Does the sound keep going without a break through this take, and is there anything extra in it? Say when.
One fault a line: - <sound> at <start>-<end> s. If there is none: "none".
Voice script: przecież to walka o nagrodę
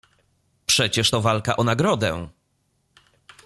none